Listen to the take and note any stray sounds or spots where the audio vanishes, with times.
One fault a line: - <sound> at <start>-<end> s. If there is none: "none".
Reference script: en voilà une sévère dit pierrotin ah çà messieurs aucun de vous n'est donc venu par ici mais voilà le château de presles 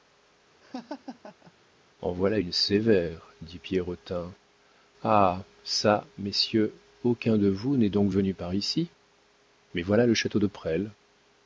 - laugh at 0.6-1.5 s